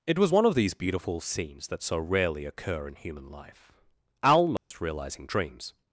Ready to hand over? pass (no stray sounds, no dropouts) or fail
fail